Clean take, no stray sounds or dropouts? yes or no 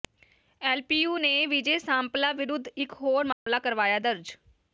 no